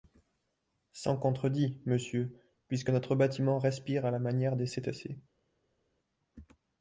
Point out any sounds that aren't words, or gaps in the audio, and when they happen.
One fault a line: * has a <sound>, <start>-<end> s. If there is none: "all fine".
all fine